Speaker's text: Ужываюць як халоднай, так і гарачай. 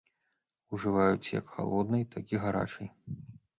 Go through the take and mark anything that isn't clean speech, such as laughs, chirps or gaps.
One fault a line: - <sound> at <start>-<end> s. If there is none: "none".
none